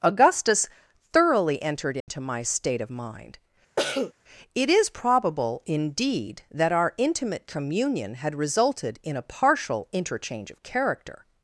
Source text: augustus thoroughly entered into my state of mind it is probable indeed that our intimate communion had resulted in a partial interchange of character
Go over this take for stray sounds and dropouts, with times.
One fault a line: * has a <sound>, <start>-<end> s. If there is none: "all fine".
* has a dropout, 2.0-2.1 s
* has a cough, 3.8-4.1 s